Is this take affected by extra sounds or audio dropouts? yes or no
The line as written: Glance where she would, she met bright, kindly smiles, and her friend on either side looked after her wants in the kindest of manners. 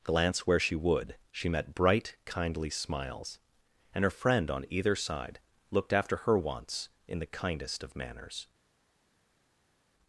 no